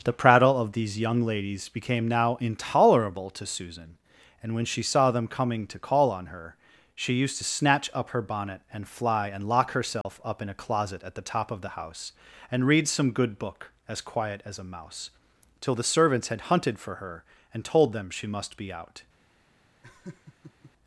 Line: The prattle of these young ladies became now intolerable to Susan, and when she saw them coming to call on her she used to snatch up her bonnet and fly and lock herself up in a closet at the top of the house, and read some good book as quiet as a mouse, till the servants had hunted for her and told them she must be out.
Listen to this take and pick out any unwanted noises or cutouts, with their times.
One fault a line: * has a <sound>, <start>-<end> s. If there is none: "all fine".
* has a dropout, 10.0-10.1 s
* has a laugh, 19.8-20.7 s